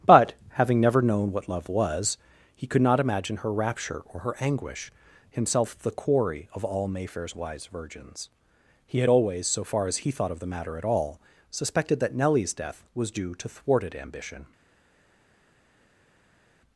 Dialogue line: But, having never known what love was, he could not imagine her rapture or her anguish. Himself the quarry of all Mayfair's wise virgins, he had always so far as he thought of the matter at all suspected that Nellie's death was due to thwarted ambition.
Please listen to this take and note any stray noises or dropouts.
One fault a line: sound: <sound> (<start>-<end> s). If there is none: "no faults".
no faults